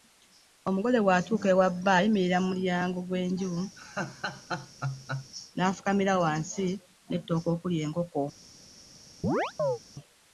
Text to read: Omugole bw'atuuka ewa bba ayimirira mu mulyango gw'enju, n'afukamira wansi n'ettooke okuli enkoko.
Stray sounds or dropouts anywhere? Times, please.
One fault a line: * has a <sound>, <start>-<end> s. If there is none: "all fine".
* has a laugh, 3.8-5.3 s
* has a chirp, 9.2-9.8 s